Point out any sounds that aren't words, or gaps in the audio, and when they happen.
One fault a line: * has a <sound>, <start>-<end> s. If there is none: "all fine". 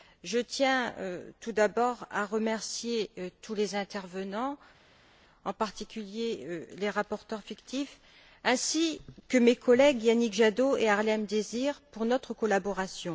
all fine